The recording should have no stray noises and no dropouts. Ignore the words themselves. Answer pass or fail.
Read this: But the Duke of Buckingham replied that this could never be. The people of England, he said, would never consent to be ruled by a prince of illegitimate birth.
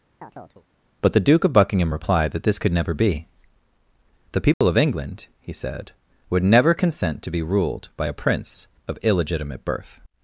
fail